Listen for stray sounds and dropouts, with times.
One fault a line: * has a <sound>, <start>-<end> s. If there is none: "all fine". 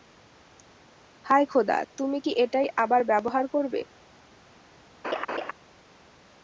* has a laugh, 5.0-5.5 s